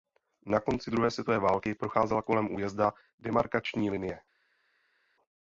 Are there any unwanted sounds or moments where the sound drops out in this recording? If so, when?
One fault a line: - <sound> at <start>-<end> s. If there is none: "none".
none